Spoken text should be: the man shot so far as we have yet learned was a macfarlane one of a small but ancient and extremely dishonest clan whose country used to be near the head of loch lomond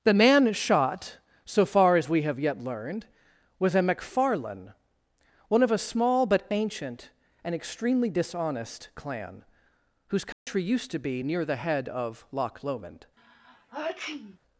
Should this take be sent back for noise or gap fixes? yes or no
yes